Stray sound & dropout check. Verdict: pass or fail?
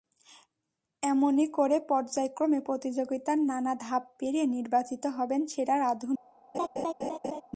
fail